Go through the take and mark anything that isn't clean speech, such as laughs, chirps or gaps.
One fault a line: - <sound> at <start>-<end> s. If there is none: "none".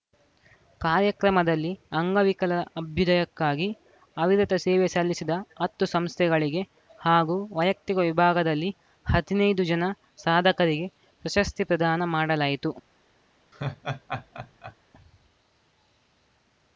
- laugh at 13.5-14.8 s